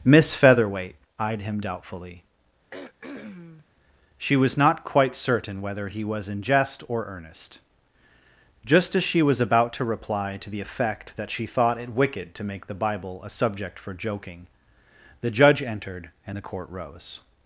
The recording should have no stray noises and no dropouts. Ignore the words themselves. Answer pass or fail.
fail